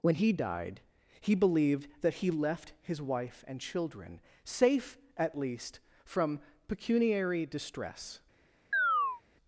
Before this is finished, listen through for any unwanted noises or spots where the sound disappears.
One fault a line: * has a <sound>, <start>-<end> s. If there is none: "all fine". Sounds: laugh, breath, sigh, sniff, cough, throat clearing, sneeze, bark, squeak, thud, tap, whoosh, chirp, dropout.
* has a chirp, 8.7-9.2 s